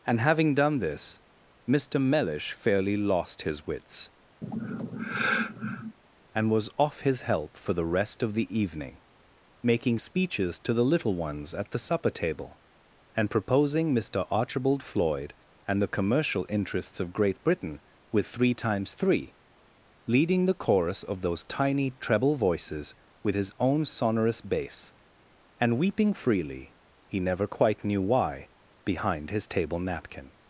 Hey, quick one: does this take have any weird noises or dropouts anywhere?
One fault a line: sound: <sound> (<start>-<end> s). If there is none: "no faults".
sound: sigh (4.4-6.0 s)